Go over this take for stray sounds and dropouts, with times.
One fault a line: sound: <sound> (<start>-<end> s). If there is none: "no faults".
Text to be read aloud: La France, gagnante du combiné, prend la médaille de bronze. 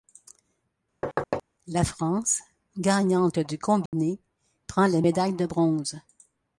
sound: thud (1.0-1.4 s)
sound: dropout (3.9-3.9 s)